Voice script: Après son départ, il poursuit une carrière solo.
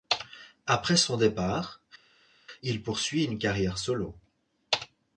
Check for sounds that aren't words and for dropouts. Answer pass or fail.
pass